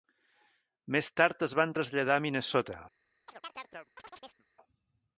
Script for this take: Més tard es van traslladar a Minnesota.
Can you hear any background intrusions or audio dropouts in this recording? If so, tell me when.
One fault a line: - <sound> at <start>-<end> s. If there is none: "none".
- chirp at 3.3-4.5 s